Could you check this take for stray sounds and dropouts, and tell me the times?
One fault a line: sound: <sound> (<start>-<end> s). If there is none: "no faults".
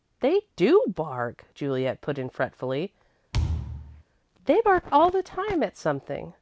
sound: thud (3.3-4.0 s)